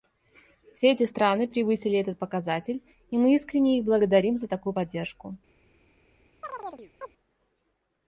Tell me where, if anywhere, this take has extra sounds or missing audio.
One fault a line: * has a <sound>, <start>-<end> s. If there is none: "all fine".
* has a chirp, 6.4-7.1 s